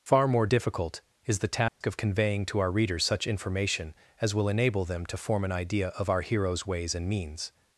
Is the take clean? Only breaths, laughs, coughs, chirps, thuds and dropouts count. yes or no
no